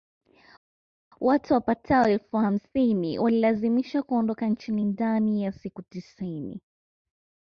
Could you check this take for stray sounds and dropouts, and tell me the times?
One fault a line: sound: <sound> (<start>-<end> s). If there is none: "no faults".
no faults